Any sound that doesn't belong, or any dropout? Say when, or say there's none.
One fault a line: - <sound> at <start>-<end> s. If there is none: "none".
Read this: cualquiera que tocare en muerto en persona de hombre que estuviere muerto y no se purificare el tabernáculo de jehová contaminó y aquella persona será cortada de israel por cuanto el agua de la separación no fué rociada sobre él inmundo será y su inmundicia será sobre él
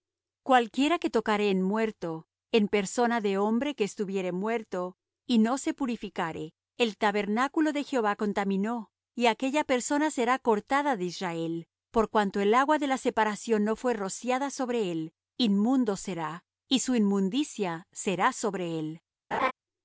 - laugh at 19.3-19.5 s